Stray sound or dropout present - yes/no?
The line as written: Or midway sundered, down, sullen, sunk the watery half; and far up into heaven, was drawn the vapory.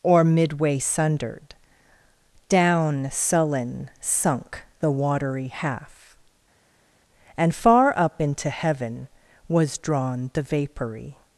no